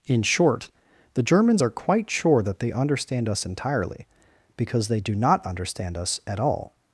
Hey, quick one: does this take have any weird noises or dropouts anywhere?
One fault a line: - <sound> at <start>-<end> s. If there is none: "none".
none